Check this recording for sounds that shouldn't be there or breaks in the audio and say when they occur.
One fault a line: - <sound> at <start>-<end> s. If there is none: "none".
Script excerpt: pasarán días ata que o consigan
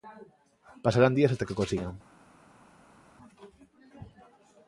none